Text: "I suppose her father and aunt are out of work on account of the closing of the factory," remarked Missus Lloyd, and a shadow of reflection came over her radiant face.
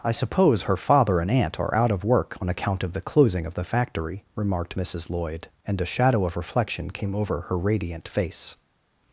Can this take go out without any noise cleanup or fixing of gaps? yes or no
yes